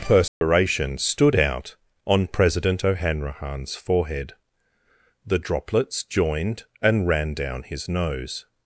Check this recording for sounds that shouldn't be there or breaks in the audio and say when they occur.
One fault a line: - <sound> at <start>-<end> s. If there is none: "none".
- dropout at 0.3-0.4 s